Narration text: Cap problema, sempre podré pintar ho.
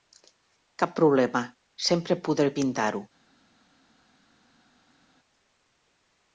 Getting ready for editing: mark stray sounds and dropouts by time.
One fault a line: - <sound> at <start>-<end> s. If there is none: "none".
none